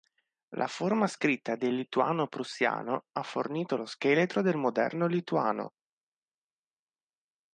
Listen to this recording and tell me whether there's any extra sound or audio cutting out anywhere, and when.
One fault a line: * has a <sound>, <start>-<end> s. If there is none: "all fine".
all fine